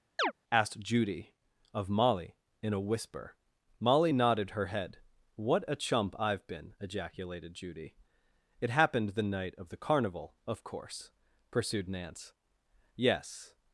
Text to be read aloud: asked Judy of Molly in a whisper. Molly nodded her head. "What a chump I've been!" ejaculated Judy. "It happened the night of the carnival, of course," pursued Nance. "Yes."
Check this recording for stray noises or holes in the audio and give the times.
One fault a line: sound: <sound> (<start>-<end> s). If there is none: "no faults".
sound: chirp (0.2-0.3 s)